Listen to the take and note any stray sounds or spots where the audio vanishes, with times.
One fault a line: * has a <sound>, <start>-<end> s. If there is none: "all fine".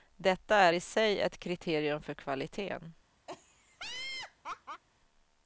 * has a laugh, 3.3-4.8 s